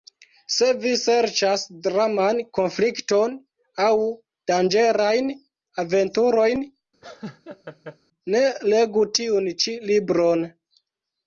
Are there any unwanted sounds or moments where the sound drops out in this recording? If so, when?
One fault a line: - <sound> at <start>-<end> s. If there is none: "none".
- laugh at 7.0-8.0 s